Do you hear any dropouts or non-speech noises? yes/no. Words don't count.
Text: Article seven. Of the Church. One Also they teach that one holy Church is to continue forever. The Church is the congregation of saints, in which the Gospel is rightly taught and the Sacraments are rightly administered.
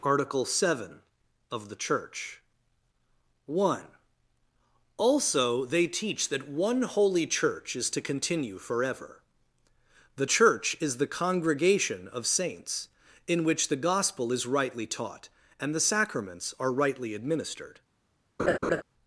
yes